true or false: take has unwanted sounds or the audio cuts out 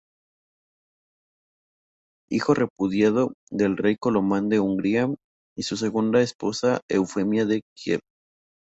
false